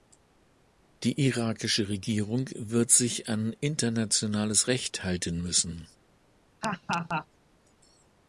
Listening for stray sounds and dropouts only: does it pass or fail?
fail